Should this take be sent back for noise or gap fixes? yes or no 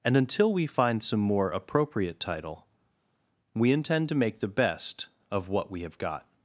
no